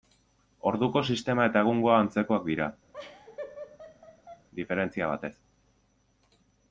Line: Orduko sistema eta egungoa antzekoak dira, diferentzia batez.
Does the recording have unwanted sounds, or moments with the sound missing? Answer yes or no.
yes